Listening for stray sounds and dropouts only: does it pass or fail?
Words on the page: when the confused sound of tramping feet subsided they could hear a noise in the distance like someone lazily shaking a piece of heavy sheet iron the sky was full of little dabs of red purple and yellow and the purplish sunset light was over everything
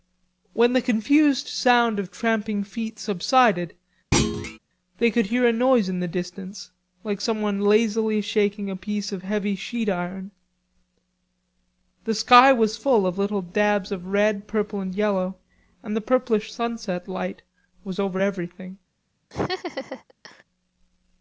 fail